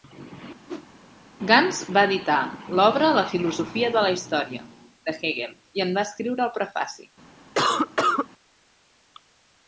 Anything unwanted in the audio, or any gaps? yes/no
yes